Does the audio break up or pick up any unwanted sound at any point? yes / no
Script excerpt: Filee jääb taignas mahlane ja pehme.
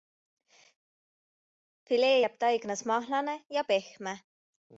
no